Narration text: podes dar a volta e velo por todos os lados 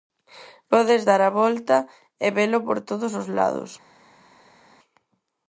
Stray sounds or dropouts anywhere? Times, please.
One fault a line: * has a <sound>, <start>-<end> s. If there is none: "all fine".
all fine